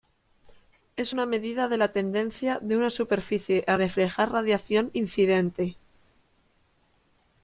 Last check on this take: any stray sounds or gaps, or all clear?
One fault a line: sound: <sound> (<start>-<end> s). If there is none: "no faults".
no faults